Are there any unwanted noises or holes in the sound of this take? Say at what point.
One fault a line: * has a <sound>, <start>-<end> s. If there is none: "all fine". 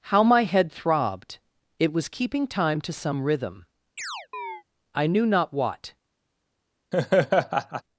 * has a chirp, 4.0-4.6 s
* has a laugh, 6.9-7.8 s